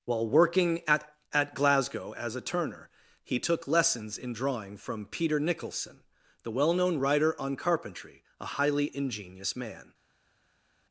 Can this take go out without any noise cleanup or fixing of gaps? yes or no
yes